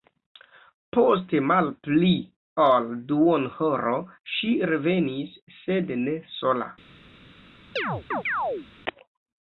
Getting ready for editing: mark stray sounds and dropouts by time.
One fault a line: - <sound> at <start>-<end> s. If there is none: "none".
- chirp at 7.8-8.7 s